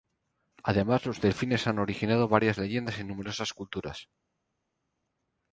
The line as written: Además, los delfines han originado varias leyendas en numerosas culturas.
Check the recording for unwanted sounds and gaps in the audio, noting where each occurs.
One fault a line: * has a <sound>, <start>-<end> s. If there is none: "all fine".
all fine